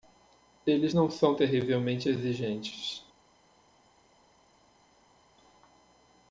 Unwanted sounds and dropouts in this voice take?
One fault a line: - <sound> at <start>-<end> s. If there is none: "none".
none